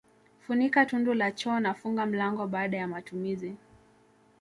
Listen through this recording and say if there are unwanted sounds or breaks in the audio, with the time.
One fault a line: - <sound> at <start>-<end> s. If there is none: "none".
none